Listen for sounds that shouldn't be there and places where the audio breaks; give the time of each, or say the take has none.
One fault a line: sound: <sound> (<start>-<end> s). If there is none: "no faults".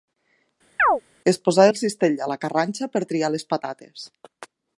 sound: chirp (0.8-1.0 s)